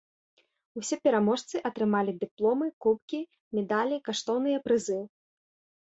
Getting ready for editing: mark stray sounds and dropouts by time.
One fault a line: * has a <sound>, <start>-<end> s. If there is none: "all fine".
all fine